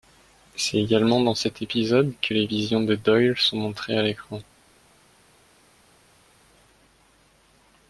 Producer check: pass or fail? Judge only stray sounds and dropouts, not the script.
pass